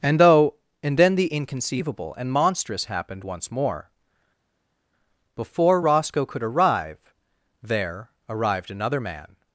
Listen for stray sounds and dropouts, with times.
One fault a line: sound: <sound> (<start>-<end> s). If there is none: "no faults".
no faults